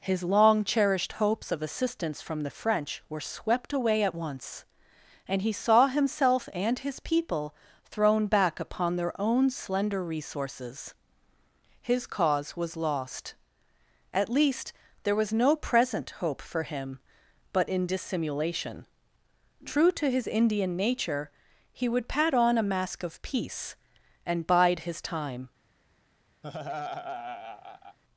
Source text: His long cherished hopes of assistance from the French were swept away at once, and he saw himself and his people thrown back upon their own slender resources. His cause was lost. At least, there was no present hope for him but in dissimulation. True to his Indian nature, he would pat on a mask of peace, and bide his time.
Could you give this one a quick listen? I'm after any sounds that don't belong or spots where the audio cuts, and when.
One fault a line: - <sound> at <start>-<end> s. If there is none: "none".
- laugh at 26.4-28.0 s